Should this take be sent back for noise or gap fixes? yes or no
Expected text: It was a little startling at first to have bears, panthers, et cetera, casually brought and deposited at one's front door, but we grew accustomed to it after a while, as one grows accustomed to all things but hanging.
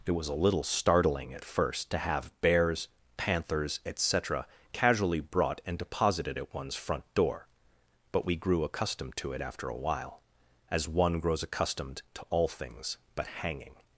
no